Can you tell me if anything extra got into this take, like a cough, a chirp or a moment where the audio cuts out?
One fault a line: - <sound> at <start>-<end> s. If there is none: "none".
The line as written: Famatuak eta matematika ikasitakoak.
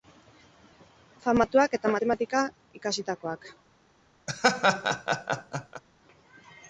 - laugh at 4.3-5.8 s